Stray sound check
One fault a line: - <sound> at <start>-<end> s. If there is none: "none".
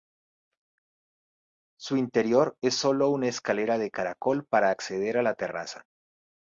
none